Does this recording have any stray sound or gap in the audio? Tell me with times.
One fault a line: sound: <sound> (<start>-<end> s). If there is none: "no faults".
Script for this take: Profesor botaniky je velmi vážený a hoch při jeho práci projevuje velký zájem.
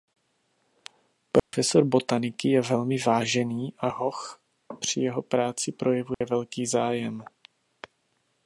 sound: dropout (1.4-1.5 s)
sound: dropout (6.1-6.2 s)